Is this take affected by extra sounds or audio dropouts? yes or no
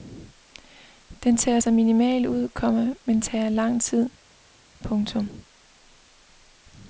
no